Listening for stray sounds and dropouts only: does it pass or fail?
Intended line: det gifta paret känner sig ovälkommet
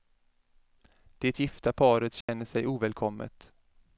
fail